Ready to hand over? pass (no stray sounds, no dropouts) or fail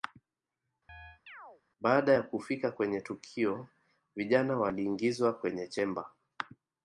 fail